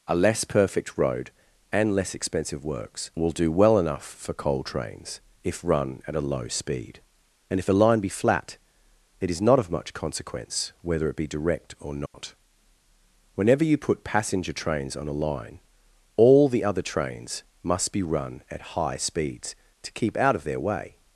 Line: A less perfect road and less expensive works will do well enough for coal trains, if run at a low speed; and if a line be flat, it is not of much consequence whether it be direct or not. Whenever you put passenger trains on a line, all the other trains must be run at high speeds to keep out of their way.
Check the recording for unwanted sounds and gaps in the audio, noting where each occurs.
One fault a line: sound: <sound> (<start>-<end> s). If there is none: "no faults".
sound: dropout (12.1-12.1 s)